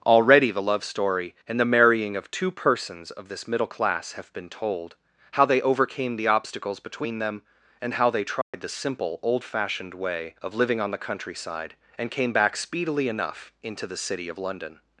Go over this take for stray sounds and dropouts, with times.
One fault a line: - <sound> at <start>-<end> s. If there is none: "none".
- dropout at 8.4-8.5 s